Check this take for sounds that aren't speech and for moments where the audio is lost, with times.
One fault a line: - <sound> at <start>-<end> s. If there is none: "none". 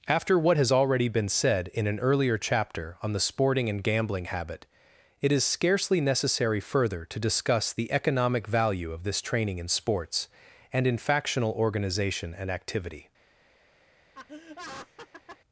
- laugh at 14.1-15.4 s